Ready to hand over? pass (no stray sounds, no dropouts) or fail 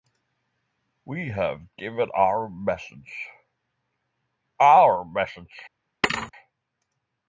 fail